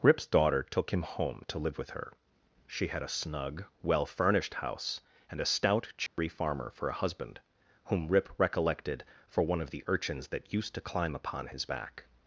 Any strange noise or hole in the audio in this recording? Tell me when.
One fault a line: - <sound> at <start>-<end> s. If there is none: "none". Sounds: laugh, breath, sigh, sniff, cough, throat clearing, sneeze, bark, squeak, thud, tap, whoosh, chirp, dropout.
- dropout at 6.1-6.2 s